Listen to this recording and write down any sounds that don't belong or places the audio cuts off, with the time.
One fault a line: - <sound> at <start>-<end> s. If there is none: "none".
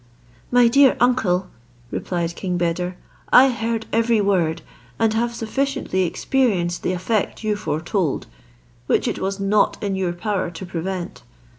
none